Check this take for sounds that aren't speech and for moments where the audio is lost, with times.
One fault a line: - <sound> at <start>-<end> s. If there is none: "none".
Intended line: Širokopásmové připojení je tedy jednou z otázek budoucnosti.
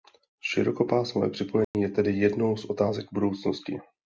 - dropout at 1.6-1.7 s